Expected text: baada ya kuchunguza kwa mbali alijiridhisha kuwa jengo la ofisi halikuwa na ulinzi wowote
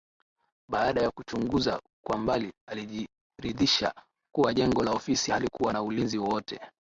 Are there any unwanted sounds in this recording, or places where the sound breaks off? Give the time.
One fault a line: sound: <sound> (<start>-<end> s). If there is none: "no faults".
no faults